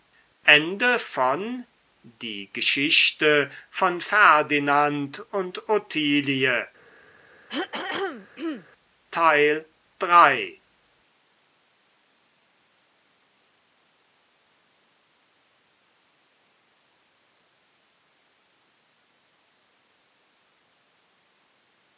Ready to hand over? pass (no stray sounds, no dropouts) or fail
fail